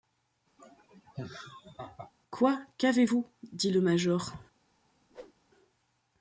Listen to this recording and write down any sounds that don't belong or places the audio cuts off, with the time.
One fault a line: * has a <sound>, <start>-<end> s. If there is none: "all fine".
* has a laugh, 0.6-2.1 s
* has a whoosh, 5.1-5.3 s